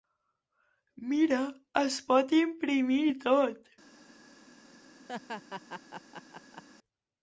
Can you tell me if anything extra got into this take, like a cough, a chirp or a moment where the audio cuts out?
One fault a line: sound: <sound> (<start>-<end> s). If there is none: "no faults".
sound: laugh (5.1-6.6 s)